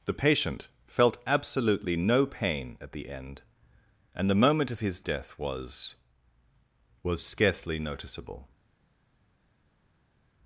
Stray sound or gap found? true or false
false